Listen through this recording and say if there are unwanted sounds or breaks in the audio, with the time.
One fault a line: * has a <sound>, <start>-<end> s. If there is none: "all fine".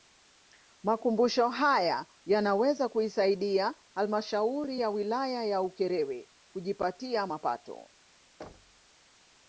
* has a thud, 8.4-8.9 s